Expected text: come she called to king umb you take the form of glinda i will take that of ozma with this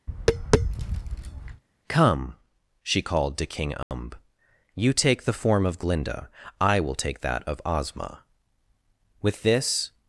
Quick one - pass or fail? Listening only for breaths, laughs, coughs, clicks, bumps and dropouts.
fail